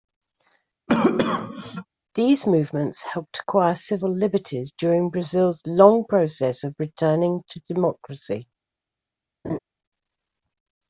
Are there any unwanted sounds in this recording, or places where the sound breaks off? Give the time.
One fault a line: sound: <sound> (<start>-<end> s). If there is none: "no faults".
sound: cough (0.9-1.9 s)
sound: laugh (9.4-9.6 s)